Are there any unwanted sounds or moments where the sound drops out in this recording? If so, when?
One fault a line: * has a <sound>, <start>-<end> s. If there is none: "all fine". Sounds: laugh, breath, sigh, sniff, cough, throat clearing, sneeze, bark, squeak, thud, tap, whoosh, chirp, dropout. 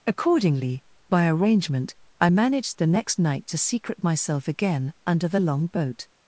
all fine